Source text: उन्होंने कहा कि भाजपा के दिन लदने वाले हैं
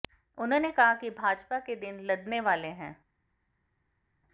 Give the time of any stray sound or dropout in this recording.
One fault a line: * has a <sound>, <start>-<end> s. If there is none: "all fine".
all fine